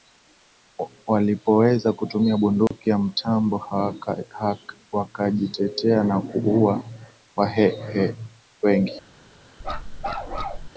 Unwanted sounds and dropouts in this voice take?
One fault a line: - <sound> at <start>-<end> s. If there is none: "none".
- dropout at 2.7-2.7 s
- bark at 9.6-10.7 s